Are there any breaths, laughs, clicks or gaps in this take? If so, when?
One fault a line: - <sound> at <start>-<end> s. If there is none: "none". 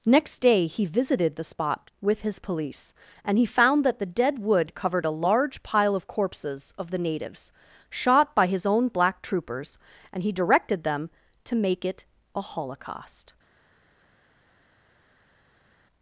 none